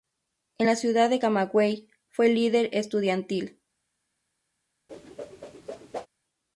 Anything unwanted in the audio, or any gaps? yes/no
yes